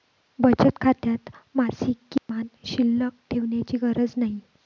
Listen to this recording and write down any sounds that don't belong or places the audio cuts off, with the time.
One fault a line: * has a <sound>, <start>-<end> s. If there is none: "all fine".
* has a dropout, 2.2-2.3 s